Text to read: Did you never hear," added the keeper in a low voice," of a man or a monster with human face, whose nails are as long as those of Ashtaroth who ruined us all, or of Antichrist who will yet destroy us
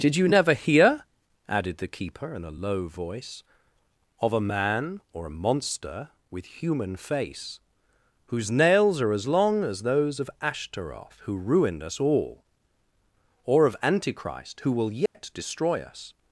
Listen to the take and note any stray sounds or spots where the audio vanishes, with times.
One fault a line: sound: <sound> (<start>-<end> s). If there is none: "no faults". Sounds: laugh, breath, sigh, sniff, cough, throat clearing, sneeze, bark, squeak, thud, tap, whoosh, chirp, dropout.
sound: dropout (15.1-15.1 s)